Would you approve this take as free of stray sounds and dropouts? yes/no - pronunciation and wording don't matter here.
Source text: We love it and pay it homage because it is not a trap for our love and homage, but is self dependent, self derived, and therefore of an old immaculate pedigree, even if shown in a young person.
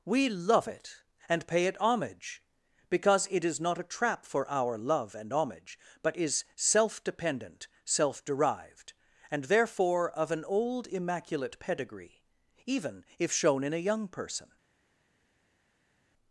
yes